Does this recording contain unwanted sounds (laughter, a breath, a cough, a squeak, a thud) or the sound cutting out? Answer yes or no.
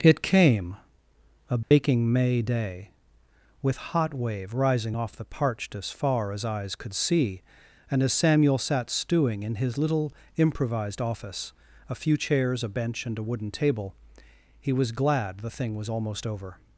yes